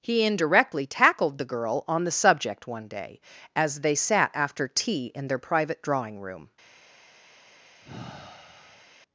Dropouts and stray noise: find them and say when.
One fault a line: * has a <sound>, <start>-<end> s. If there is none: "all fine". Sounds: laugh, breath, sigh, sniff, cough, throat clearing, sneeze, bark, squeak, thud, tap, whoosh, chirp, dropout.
* has a sigh, 7.8-8.9 s